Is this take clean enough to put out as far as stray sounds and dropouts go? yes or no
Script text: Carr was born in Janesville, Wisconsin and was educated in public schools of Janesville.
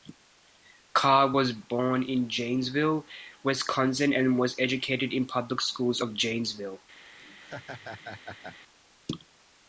no